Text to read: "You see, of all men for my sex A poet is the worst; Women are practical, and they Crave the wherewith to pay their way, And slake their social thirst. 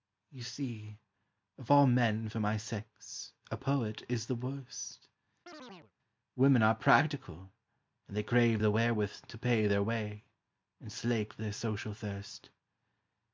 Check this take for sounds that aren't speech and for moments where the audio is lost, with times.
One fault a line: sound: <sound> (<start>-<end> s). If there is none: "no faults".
sound: chirp (5.5-5.9 s)